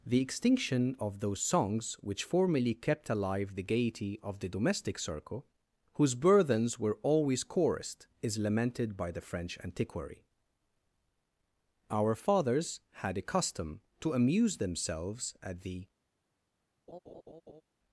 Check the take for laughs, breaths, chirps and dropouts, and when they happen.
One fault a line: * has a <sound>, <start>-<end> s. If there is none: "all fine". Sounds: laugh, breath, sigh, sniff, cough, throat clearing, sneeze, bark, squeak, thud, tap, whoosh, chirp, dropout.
* has a laugh, 16.9-17.6 s